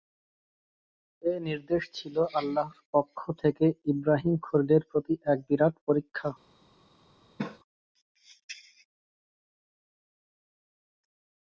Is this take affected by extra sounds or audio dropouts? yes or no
yes